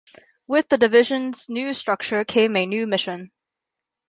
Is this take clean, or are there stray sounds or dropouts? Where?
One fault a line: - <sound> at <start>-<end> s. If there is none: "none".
none